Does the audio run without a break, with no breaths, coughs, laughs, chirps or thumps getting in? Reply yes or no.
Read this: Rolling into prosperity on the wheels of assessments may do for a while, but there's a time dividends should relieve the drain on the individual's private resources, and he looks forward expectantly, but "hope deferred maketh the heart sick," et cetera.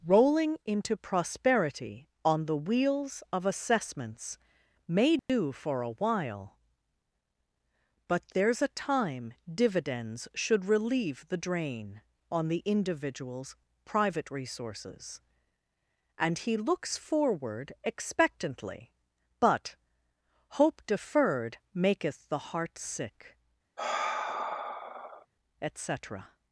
no